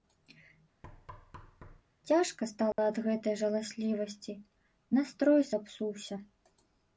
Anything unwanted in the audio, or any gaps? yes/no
yes